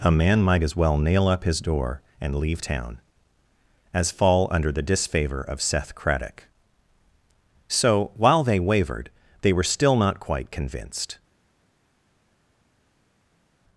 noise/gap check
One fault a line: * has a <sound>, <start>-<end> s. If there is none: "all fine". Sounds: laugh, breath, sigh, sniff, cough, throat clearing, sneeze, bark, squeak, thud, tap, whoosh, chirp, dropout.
all fine